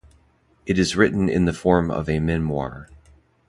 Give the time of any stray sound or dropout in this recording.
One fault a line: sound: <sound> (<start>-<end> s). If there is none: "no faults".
no faults